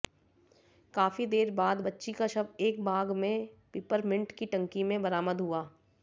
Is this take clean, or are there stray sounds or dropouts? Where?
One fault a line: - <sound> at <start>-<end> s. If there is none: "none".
none